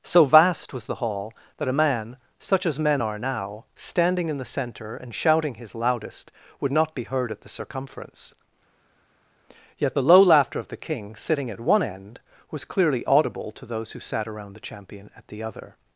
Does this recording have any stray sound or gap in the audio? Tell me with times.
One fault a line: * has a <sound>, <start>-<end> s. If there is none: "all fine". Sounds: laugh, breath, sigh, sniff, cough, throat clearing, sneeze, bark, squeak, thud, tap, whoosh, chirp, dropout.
all fine